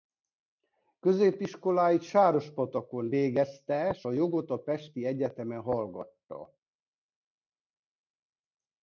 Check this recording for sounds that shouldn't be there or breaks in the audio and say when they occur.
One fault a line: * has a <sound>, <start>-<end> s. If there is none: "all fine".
all fine